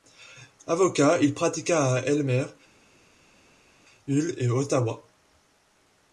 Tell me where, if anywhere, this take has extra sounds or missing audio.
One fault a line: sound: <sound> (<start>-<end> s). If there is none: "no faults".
no faults